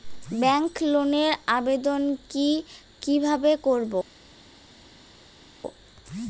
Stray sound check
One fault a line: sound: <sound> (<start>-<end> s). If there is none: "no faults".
no faults